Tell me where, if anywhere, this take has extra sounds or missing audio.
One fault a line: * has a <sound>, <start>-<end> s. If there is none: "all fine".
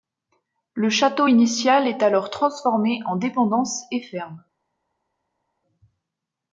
all fine